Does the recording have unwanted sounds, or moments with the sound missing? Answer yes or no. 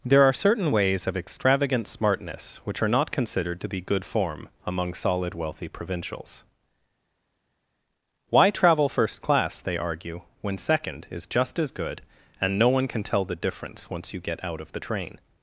no